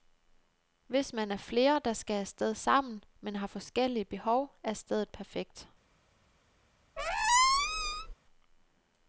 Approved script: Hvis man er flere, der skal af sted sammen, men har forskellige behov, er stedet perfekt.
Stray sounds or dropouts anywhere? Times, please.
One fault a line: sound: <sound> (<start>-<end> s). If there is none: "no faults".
sound: squeak (7.0-8.1 s)